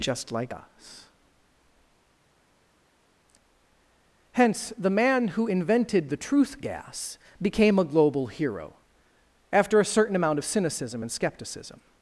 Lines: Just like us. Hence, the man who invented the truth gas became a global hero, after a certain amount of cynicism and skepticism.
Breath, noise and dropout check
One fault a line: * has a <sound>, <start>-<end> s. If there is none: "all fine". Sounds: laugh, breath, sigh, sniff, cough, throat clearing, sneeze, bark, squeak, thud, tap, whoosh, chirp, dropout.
all fine